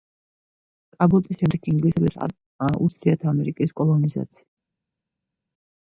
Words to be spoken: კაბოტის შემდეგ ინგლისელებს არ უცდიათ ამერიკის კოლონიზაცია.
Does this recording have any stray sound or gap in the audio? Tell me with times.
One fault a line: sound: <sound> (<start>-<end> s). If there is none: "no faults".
no faults